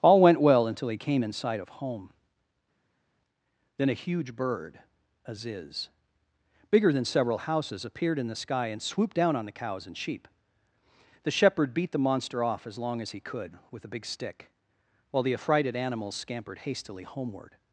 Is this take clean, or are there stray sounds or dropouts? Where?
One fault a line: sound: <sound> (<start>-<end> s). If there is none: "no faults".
no faults